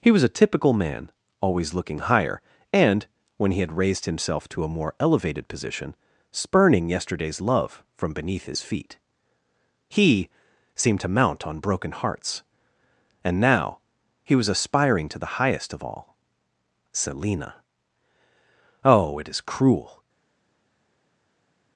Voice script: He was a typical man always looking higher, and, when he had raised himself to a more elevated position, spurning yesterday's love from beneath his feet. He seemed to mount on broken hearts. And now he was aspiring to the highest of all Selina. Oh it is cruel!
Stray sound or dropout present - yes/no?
no